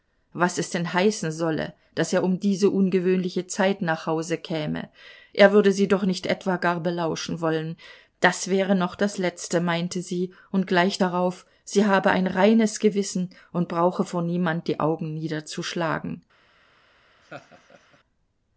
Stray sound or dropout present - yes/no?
yes